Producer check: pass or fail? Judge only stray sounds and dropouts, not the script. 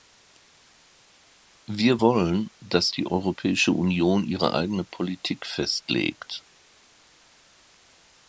pass